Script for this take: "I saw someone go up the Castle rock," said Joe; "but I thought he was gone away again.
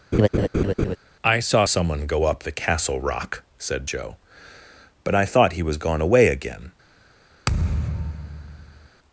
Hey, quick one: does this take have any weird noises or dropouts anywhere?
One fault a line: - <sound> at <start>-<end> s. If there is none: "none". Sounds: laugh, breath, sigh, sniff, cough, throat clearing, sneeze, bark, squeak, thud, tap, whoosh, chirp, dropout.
- laugh at 0.1-1.0 s
- thud at 7.5-8.9 s